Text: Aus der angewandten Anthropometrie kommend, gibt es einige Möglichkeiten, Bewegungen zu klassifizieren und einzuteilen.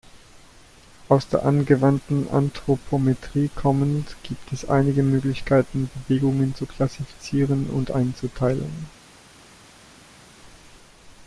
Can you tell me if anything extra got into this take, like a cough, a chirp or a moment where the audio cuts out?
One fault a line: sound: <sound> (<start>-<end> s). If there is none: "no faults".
no faults